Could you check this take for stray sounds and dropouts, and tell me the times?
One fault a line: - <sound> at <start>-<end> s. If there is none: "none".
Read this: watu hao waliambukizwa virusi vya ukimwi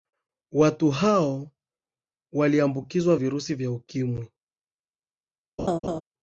- laugh at 5.6-6.0 s